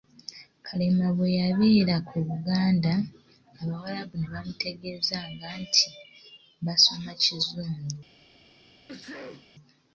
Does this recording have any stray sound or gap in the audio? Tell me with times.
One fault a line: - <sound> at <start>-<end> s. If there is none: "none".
- sneeze at 8.9-9.5 s